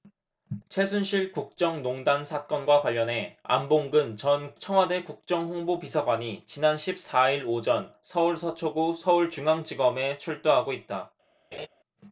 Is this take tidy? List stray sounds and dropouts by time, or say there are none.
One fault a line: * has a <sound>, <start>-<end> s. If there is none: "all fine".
* has a laugh, 11.5-11.7 s